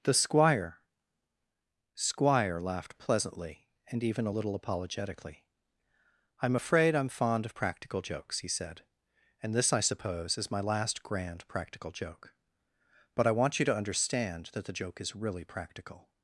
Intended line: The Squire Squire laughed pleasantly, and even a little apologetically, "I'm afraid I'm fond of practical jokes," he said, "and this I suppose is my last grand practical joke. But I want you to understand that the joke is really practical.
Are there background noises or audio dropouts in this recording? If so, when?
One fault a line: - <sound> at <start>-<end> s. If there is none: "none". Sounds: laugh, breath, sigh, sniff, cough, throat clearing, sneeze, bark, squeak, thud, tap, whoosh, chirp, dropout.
none